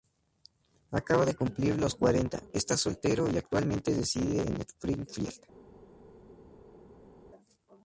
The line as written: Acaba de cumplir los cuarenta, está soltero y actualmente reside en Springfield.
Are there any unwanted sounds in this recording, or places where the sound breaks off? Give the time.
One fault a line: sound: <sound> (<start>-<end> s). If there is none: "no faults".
no faults